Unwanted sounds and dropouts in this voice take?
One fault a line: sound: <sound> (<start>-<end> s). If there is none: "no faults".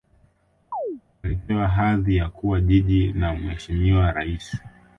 sound: chirp (0.7-1.0 s)